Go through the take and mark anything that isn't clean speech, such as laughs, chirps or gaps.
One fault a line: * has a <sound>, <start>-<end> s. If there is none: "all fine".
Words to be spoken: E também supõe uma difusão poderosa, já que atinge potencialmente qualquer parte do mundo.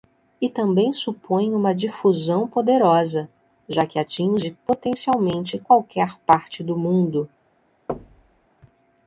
* has a thud, 7.9-8.5 s